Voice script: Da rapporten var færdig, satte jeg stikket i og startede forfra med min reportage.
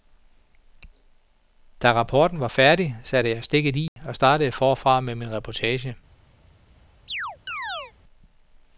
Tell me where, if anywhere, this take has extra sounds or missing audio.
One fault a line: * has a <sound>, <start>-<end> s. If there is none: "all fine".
* has a dropout, 3.9-4.0 s
* has a chirp, 7.1-7.9 s